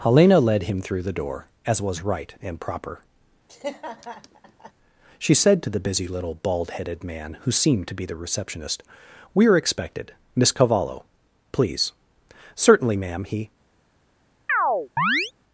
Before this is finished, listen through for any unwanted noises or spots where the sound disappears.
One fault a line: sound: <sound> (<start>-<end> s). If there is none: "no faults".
sound: laugh (3.5-4.7 s)
sound: chirp (14.5-15.3 s)